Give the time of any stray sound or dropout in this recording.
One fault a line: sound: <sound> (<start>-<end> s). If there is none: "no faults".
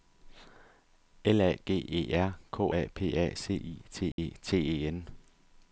sound: dropout (4.1-4.2 s)